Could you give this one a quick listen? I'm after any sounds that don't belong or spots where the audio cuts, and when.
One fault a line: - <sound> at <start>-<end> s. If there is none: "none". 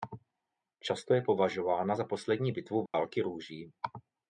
- dropout at 2.9-2.9 s